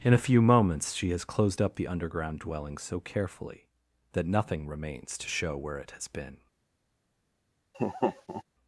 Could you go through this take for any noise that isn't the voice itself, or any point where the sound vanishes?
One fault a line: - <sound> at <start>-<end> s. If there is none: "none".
- laugh at 7.7-8.4 s